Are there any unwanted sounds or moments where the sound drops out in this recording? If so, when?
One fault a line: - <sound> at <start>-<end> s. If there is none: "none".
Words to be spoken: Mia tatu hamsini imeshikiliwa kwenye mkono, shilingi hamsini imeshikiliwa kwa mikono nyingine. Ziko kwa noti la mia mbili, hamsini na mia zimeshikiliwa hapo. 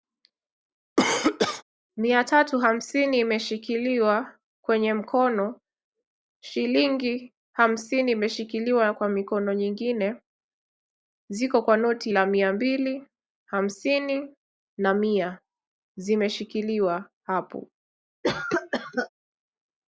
- cough at 1.0-1.6 s
- cough at 18.2-19.1 s